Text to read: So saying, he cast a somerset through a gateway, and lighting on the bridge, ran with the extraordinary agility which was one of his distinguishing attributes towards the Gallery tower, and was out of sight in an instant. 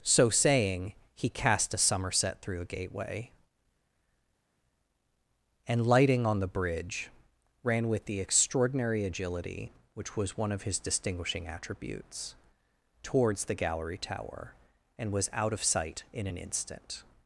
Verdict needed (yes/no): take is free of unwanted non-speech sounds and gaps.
yes